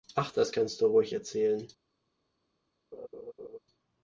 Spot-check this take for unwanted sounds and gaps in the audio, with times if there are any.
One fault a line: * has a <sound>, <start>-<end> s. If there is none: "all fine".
* has a laugh, 2.9-3.6 s